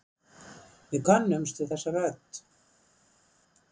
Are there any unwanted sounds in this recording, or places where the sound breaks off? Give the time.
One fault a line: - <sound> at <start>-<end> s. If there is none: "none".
none